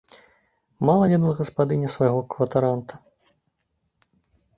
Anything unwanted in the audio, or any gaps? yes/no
no